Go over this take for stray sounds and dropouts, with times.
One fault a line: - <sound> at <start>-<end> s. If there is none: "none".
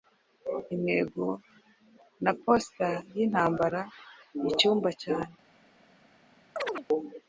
- chirp at 6.6-6.9 s